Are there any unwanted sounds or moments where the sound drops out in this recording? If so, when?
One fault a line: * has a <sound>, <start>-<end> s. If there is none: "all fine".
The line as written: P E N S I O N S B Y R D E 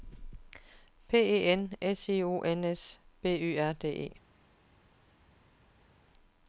all fine